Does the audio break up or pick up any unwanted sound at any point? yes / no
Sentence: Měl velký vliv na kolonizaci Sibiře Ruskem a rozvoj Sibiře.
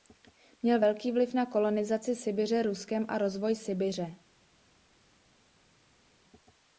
no